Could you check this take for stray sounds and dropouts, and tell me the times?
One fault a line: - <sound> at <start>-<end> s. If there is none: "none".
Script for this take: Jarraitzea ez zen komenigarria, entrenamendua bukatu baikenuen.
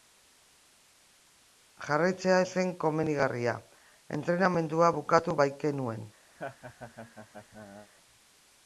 - laugh at 6.4-7.9 s